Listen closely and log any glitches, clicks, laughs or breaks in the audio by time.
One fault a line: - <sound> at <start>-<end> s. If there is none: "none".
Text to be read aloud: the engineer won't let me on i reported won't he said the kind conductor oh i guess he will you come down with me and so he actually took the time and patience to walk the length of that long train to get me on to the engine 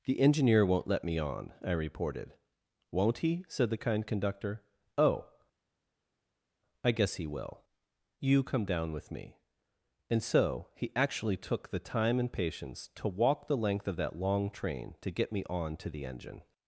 none